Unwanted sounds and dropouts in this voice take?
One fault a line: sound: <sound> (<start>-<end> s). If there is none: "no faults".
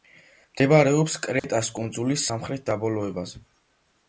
sound: dropout (1.4-1.4 s)